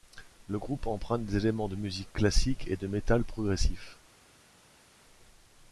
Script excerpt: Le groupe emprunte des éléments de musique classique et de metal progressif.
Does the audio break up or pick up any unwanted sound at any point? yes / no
no